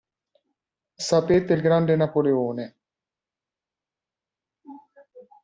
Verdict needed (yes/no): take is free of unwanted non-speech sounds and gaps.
yes